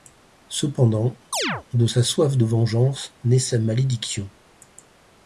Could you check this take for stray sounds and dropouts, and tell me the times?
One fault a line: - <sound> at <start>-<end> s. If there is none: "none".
- chirp at 1.3-1.6 s